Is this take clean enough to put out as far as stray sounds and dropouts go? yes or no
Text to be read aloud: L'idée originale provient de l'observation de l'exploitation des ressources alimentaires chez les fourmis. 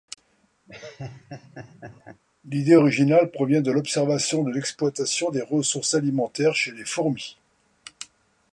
no